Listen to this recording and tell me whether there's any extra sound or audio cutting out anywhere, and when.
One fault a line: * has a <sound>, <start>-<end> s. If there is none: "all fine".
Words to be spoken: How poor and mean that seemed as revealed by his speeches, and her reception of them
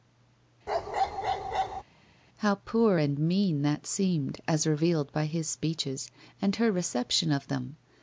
* has a bark, 0.7-1.8 s